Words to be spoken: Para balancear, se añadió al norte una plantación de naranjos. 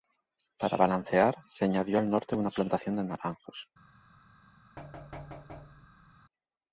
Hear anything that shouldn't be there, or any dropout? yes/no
yes